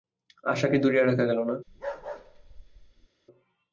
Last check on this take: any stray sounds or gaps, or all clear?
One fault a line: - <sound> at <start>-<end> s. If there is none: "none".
- bark at 1.7-3.1 s